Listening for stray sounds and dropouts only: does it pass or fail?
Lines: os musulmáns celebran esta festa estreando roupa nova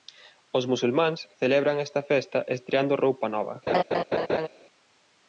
fail